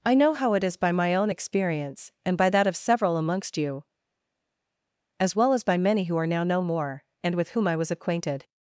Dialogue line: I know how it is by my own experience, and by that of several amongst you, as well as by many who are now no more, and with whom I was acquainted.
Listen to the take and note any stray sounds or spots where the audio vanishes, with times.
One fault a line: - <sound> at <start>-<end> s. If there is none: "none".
none